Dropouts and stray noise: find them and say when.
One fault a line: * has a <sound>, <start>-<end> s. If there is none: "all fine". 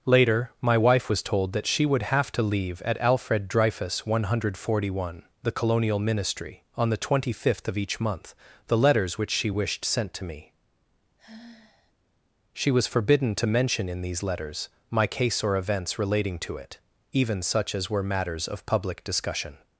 * has a sigh, 11.2-11.9 s